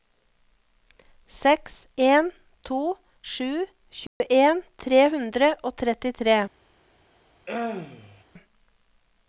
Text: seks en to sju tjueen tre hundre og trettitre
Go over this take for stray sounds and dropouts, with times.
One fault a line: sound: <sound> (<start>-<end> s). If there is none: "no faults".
sound: dropout (4.1-4.2 s)
sound: throat clearing (7.5-8.2 s)